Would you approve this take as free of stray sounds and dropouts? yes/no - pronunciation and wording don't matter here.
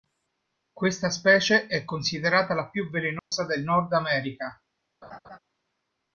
no